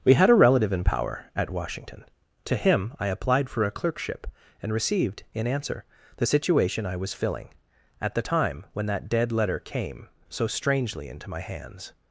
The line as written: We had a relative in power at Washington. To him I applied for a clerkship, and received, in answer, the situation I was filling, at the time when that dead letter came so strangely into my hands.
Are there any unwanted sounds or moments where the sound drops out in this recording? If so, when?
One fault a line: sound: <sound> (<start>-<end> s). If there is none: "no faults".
no faults